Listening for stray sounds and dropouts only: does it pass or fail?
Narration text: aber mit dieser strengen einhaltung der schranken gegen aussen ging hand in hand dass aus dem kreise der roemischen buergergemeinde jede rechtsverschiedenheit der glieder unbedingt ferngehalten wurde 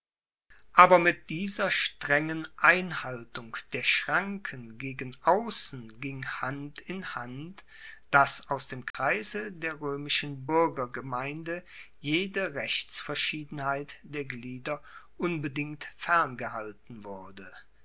fail